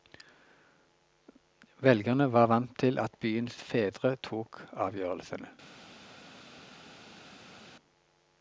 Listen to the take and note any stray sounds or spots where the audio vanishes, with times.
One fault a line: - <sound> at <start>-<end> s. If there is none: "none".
none